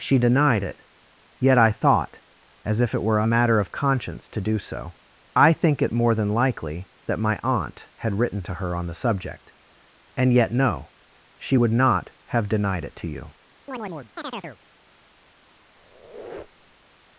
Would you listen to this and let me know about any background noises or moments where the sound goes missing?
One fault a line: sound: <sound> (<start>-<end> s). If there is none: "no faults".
sound: chirp (13.7-14.6 s)
sound: squeak (15.8-16.9 s)